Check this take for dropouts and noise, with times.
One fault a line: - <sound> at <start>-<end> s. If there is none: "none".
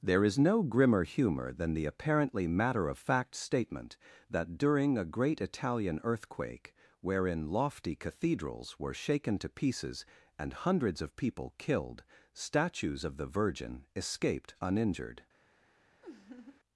- laugh at 16.0-16.6 s